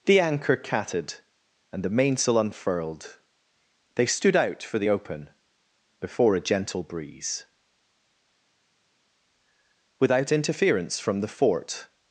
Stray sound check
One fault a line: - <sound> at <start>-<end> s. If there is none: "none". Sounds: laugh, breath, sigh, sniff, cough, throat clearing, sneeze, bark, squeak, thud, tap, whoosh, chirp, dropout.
none